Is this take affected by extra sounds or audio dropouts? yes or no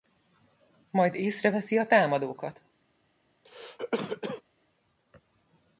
yes